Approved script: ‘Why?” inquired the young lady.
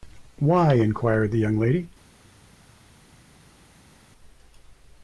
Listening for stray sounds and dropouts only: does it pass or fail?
pass